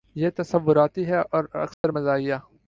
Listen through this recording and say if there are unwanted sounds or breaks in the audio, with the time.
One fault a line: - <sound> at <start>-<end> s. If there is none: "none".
- dropout at 1.7-1.8 s